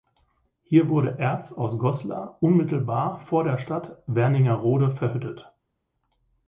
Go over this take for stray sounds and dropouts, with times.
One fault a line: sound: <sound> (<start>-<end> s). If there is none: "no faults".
no faults